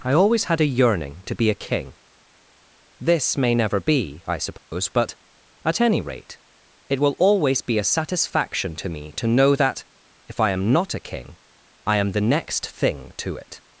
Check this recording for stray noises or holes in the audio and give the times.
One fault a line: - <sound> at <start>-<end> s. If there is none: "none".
- dropout at 4.6-4.7 s